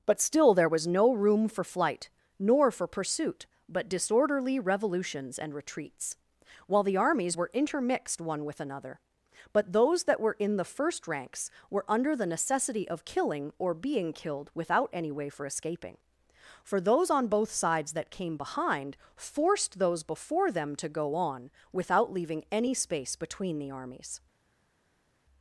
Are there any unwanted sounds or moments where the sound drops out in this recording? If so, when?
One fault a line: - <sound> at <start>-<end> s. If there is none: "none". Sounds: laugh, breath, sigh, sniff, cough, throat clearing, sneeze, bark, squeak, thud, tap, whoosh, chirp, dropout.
none